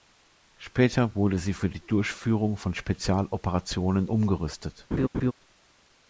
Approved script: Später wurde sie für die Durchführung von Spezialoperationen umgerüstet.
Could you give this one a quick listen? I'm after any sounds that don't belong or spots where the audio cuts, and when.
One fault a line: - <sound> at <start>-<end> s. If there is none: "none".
- laugh at 4.9-5.3 s